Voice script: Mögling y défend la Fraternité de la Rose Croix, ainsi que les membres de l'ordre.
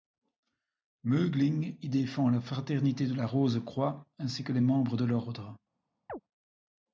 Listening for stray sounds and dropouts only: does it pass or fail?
fail